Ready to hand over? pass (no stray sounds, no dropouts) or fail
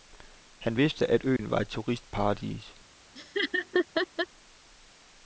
fail